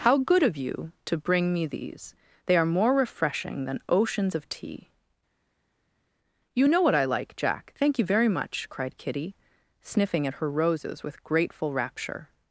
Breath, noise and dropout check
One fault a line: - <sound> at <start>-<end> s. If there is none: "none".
none